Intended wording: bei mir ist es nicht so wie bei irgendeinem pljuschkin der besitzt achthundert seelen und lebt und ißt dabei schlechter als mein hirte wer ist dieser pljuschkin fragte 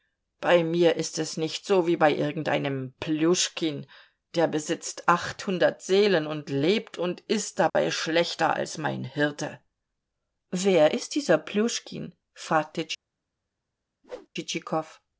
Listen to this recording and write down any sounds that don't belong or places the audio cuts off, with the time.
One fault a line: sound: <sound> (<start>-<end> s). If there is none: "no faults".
sound: dropout (7.7-7.8 s)
sound: whoosh (14.0-14.3 s)